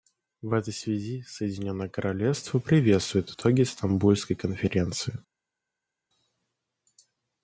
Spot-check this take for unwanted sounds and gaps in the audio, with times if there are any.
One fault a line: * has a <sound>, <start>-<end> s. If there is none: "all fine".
all fine